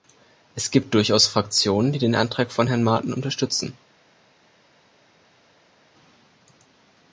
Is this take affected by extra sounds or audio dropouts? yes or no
no